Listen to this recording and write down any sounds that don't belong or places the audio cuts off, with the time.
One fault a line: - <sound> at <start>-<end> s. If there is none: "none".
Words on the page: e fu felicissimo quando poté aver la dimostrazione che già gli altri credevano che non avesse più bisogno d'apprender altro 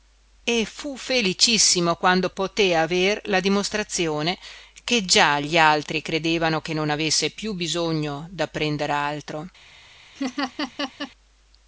- laugh at 10.2-11.1 s